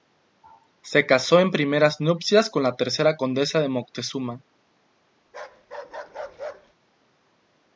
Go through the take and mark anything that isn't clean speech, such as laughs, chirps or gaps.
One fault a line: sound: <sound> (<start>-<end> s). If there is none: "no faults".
sound: bark (5.3-6.7 s)